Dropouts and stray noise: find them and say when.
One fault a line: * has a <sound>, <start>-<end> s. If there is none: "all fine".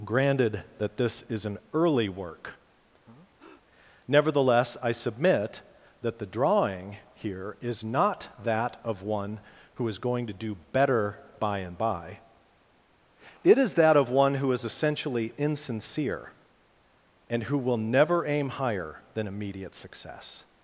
* has a breath, 3.1-3.6 s